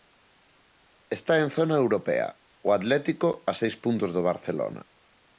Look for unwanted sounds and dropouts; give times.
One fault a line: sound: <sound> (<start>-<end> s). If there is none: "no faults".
no faults